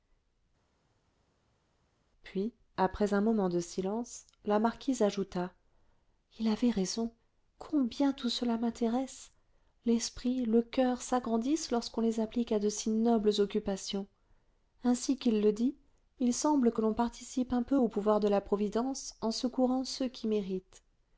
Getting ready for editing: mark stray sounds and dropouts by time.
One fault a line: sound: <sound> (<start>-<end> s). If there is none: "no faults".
no faults